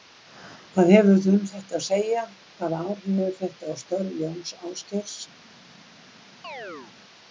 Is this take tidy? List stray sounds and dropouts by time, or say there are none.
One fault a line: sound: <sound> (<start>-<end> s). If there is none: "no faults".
sound: chirp (6.4-6.9 s)